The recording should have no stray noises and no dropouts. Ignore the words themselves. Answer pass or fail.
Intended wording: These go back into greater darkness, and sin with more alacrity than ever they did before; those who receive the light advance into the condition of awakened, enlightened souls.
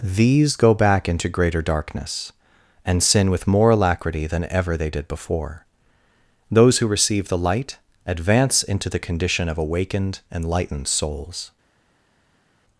pass